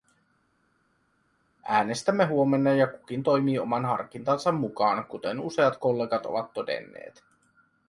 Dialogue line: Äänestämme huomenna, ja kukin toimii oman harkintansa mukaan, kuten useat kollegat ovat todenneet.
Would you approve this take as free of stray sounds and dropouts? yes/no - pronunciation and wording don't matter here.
yes